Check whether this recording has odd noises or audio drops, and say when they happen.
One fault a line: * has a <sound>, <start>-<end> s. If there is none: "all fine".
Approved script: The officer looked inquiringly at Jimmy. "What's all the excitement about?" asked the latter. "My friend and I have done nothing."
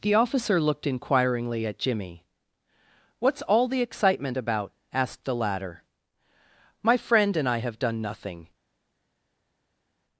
all fine